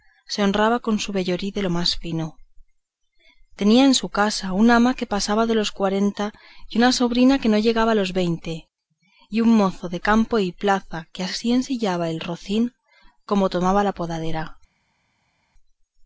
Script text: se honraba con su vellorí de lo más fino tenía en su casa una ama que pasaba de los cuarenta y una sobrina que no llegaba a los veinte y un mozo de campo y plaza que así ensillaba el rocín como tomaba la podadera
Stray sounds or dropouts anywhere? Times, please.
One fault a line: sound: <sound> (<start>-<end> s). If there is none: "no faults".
no faults